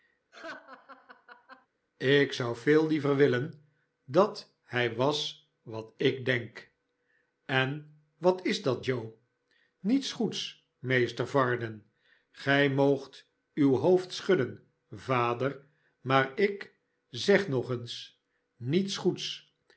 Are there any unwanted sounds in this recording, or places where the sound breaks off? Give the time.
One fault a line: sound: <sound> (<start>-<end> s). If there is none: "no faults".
sound: laugh (0.3-1.7 s)